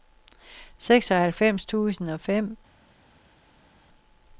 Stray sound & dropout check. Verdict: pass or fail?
pass